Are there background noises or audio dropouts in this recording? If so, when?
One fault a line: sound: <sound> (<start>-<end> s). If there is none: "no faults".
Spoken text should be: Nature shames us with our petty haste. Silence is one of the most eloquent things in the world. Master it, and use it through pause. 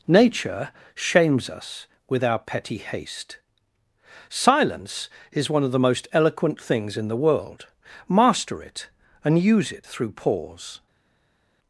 no faults